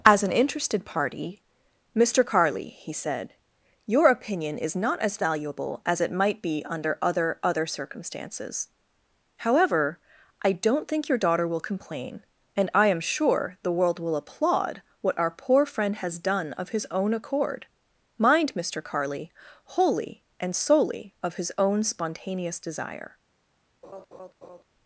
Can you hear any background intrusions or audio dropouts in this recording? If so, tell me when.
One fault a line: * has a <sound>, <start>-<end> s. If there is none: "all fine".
* has a laugh, 23.8-24.6 s